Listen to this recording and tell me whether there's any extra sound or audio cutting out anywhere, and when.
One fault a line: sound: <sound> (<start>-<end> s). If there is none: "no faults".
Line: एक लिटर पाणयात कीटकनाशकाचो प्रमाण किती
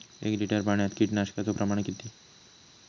no faults